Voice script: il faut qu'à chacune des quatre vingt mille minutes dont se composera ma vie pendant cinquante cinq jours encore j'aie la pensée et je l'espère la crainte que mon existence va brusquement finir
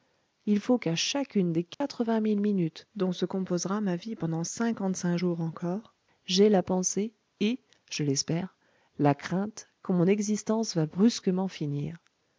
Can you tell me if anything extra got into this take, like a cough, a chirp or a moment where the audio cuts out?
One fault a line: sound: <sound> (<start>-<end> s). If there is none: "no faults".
sound: dropout (1.7-1.8 s)